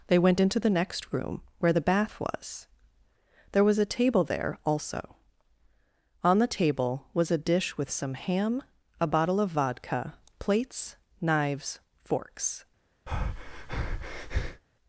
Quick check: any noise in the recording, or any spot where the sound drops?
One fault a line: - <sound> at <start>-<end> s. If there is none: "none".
- breath at 13.1-14.6 s